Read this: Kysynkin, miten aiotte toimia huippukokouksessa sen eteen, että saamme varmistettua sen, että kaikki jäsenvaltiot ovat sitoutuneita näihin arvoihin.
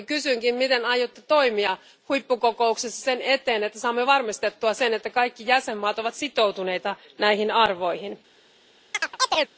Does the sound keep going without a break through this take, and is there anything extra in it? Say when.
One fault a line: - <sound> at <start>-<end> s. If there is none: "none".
- chirp at 8.9-9.5 s